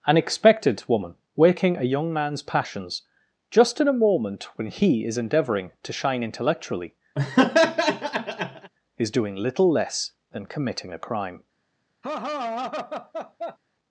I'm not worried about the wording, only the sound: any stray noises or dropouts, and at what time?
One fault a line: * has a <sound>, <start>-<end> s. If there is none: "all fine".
* has a laugh, 7.2-8.7 s
* has a laugh, 12.0-13.6 s